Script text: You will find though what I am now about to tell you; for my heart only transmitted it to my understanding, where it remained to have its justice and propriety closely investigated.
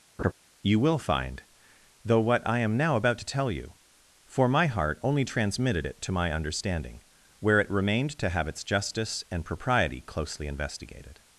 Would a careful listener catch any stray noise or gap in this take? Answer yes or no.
yes